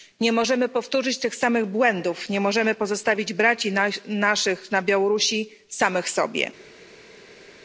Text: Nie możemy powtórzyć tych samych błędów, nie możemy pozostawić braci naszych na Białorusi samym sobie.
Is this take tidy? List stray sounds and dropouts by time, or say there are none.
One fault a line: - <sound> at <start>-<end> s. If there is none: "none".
none